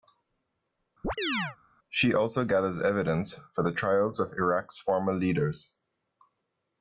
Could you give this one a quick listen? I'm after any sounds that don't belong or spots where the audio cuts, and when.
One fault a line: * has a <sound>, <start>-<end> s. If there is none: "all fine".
* has a chirp, 1.0-1.6 s